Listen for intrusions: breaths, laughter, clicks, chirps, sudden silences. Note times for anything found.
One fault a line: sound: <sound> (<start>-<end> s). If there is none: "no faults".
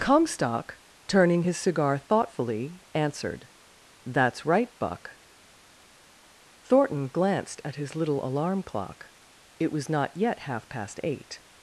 no faults